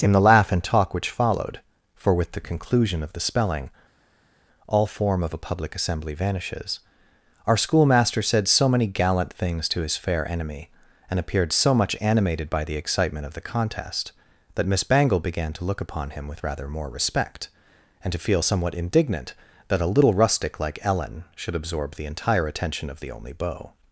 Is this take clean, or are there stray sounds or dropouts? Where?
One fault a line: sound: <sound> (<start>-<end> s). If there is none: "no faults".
no faults